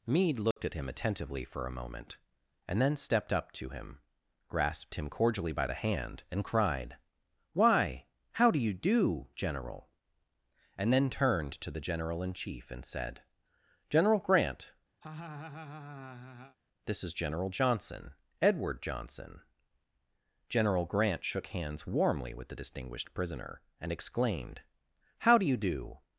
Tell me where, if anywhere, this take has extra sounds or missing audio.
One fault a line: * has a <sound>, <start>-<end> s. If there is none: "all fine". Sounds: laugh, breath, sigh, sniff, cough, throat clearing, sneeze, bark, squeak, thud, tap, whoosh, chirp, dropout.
* has a dropout, 0.5-0.6 s
* has a laugh, 15.0-16.6 s